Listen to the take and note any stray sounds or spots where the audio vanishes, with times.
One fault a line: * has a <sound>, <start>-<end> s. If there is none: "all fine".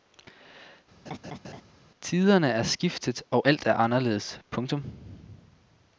* has a laugh, 1.1-1.6 s